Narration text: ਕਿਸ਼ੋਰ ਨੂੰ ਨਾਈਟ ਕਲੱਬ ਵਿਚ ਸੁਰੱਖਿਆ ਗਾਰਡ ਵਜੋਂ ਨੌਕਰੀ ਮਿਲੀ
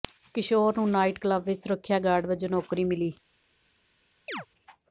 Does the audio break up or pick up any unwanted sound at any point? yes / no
yes